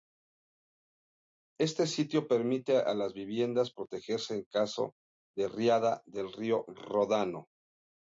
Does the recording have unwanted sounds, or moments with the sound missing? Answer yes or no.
no